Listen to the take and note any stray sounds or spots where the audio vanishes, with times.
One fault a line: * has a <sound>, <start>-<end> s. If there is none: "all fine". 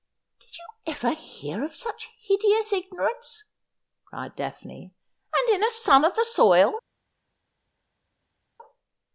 all fine